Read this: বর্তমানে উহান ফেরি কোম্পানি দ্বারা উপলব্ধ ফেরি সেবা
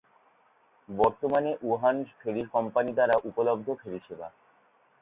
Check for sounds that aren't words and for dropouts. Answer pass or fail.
pass